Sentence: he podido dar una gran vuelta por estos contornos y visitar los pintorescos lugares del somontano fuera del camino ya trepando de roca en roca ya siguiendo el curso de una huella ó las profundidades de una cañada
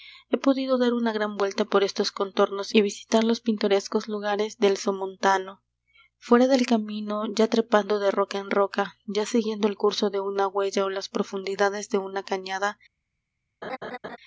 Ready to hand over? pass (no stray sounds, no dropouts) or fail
fail